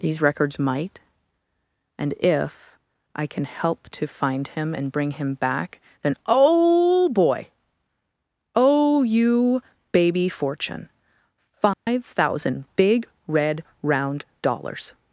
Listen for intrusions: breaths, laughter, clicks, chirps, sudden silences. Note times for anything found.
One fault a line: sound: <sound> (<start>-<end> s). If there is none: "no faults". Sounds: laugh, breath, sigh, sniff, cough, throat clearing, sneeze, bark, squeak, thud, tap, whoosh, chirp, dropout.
sound: dropout (11.7-11.9 s)